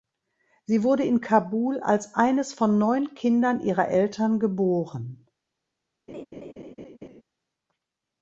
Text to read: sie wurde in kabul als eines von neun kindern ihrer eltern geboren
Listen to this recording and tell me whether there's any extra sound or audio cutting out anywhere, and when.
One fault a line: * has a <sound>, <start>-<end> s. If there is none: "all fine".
* has a laugh, 6.1-7.2 s